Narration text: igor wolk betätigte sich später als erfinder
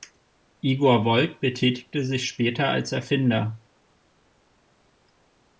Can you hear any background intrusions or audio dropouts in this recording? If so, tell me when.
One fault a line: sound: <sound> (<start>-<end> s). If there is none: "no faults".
no faults